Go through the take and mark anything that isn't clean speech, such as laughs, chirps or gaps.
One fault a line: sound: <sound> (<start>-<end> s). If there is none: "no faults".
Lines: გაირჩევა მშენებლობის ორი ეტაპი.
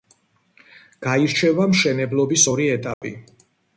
sound: dropout (2.9-3.0 s)